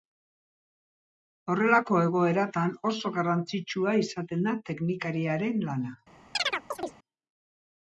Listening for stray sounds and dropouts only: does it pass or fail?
fail